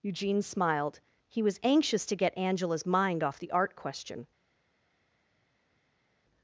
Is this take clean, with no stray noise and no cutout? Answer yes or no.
yes